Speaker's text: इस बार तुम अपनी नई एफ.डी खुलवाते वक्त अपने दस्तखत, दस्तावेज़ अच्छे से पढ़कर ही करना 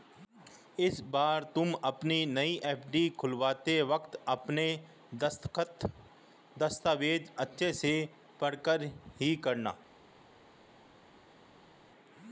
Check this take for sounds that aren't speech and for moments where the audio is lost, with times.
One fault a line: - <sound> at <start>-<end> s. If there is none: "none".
none